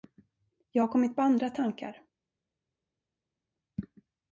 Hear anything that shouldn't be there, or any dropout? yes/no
no